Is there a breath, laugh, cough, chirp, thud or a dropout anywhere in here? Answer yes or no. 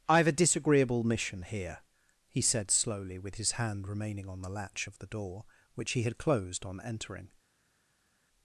no